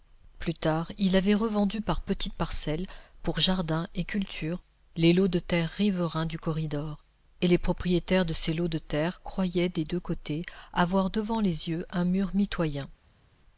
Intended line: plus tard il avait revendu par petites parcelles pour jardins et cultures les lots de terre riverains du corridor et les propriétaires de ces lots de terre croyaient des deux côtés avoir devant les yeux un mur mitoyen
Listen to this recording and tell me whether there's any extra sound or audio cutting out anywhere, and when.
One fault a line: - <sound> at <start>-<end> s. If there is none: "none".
none